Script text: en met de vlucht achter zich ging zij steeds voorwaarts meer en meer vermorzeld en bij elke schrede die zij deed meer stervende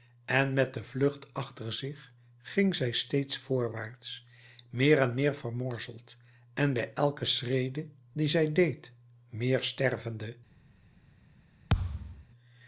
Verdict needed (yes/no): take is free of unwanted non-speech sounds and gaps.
no